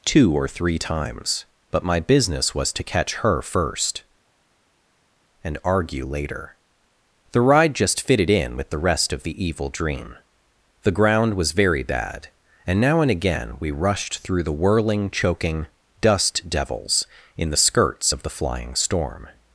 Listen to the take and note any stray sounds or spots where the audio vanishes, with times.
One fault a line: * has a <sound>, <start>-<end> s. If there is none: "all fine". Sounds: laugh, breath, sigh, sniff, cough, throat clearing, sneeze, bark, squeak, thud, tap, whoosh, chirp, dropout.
all fine